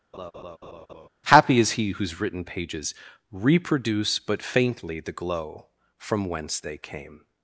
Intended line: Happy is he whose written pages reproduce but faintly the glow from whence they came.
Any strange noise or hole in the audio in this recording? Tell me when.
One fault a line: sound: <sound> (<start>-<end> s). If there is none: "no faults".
sound: laugh (0.1-1.1 s)